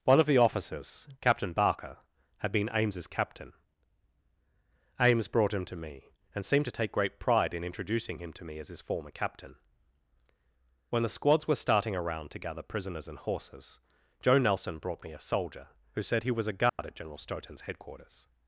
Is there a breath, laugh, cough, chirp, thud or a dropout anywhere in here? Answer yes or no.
yes